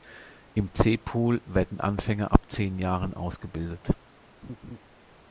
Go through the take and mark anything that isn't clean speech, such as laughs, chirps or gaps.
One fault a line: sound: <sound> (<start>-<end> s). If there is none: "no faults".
sound: laugh (4.4-4.8 s)